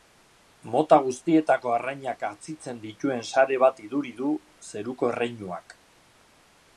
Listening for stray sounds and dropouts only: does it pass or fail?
pass